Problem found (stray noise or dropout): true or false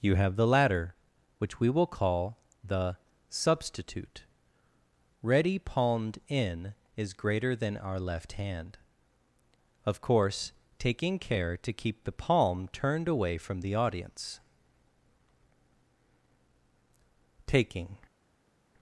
false